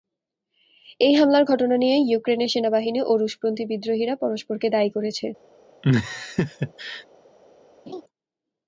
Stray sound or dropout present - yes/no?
yes